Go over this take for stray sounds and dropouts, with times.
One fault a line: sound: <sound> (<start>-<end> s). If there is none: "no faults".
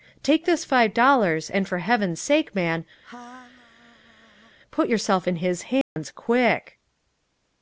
sound: laugh (3.0-4.6 s)
sound: dropout (5.8-6.0 s)